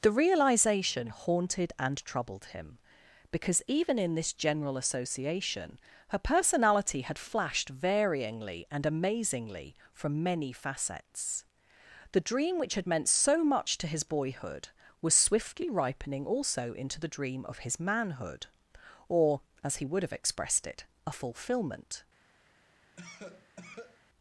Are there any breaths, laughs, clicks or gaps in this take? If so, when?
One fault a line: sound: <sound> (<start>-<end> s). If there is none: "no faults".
sound: cough (22.9-24.0 s)